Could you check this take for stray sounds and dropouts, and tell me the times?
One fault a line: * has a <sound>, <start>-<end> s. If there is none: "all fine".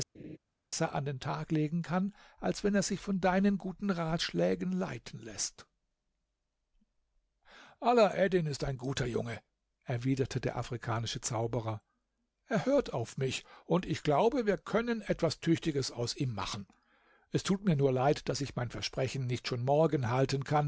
* has a laugh, 0.1-0.4 s